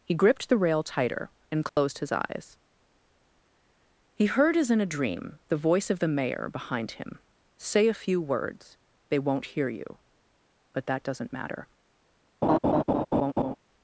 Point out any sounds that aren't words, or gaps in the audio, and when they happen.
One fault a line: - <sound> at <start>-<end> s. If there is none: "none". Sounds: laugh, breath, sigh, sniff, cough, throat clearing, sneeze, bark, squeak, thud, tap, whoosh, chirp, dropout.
- dropout at 1.7-1.8 s
- laugh at 12.4-13.6 s